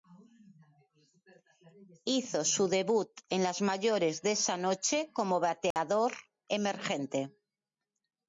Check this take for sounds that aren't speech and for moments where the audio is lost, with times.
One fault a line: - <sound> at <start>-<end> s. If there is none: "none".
- dropout at 5.7-5.8 s